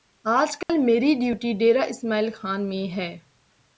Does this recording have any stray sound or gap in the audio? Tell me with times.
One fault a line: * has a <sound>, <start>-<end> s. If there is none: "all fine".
* has a dropout, 0.6-0.7 s